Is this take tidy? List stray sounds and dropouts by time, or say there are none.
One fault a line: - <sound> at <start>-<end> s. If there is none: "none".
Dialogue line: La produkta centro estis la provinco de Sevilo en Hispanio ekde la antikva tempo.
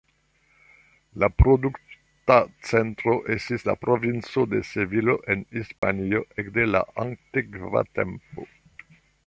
- dropout at 5.8-5.8 s